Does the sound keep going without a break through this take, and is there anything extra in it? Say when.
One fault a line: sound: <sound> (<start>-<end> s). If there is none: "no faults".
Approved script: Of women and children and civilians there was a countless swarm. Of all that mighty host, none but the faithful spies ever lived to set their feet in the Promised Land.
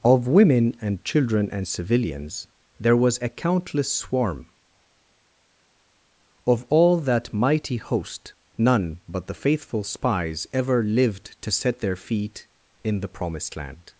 no faults